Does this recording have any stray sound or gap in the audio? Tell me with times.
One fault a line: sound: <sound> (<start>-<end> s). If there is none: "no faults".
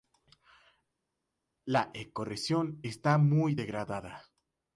no faults